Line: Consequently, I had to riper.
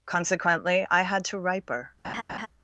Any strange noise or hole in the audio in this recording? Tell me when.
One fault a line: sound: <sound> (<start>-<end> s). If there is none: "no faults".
sound: laugh (2.0-2.5 s)